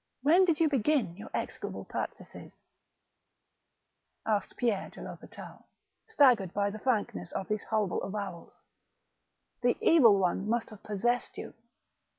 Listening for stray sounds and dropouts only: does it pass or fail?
pass